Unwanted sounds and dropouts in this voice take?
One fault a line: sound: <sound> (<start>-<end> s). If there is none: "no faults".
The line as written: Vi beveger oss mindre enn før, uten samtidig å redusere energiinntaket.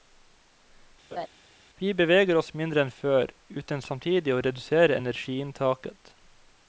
sound: laugh (1.1-1.3 s)